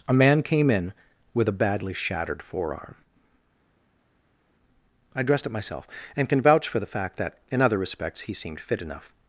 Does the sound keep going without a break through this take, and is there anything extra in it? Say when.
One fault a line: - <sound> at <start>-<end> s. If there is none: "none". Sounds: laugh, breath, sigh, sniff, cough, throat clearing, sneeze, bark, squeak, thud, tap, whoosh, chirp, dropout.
none